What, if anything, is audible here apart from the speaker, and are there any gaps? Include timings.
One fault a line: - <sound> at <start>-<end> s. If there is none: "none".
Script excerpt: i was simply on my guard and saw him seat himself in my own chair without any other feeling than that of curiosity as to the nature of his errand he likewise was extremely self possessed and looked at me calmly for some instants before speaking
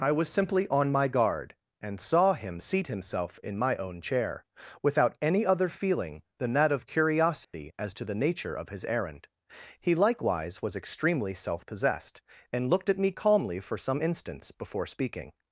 - dropout at 7.4-7.5 s